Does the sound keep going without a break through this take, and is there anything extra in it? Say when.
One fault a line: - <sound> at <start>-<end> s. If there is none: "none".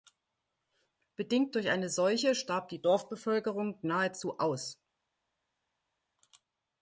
none